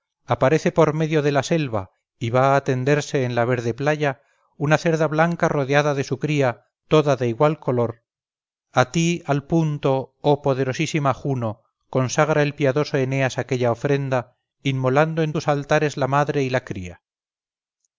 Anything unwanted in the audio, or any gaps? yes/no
no